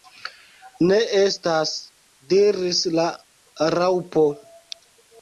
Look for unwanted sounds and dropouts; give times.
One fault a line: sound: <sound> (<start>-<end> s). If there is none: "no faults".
no faults